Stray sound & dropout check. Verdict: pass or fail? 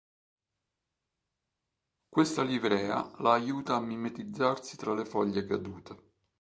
pass